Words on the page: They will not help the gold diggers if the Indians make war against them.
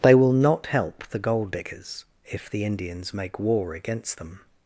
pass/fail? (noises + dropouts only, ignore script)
pass